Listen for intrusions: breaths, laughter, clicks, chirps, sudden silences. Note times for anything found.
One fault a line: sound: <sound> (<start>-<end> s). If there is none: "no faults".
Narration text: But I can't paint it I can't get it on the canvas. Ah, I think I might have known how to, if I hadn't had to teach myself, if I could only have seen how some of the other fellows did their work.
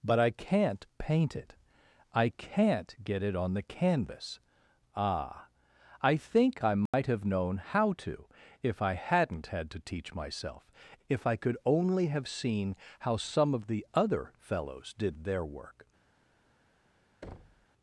sound: dropout (6.9-6.9 s)
sound: thud (17.2-17.7 s)